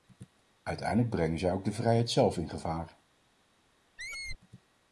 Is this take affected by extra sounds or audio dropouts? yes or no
yes